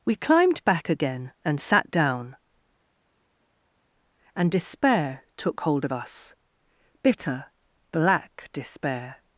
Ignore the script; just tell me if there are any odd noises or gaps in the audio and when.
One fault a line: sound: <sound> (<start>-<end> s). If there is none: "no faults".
no faults